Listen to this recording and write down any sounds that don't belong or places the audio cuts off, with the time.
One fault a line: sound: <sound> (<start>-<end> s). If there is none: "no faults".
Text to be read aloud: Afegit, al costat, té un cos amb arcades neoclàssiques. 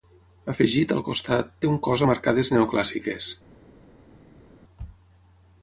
no faults